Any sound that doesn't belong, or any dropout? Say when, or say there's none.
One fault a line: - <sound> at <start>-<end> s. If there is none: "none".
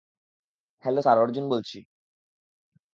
none